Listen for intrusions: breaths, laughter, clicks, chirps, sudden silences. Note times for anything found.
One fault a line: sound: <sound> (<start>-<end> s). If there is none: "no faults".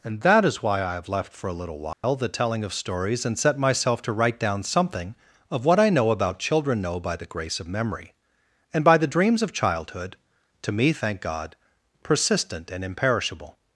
sound: dropout (1.9-2.0 s)